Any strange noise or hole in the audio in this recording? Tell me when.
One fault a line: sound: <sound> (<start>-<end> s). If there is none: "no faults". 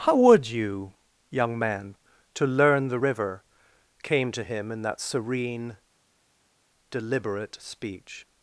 no faults